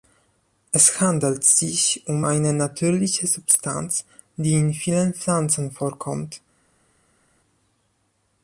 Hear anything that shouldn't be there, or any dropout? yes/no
no